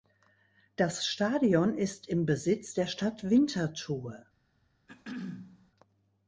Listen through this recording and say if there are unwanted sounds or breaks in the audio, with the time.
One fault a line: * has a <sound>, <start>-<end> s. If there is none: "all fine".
* has a throat clearing, 4.9-5.7 s